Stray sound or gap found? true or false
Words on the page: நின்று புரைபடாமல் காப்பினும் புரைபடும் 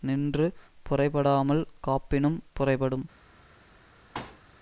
true